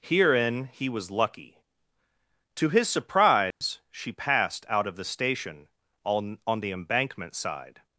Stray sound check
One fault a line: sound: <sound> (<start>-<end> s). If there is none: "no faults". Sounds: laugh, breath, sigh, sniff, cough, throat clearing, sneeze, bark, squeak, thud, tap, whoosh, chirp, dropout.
sound: dropout (3.5-3.6 s)